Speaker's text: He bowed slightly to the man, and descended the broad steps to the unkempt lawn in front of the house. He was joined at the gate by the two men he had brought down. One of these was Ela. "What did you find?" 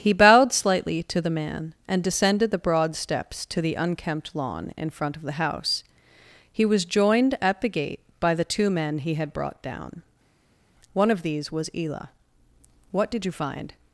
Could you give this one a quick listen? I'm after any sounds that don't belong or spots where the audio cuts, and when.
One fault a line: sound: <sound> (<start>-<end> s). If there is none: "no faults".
no faults